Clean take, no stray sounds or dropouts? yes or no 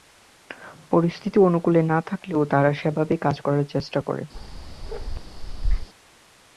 no